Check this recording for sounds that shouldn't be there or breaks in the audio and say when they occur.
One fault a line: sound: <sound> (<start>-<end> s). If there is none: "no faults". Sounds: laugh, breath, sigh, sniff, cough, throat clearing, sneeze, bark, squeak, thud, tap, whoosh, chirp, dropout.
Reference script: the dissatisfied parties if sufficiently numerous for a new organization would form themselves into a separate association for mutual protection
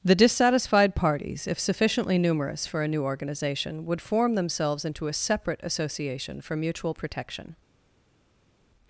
no faults